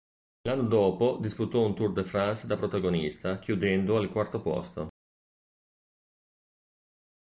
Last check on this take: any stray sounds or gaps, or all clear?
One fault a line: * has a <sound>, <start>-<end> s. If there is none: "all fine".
all fine